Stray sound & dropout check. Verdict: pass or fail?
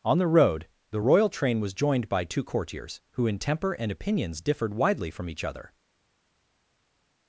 pass